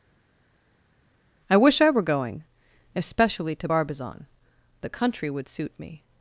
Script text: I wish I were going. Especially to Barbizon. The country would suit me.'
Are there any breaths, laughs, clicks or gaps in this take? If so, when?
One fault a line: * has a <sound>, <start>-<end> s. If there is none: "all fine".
all fine